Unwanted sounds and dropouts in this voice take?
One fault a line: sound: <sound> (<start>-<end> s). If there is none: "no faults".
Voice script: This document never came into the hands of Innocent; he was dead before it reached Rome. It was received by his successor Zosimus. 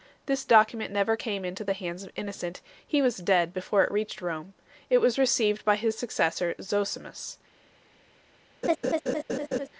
sound: laugh (8.6-9.7 s)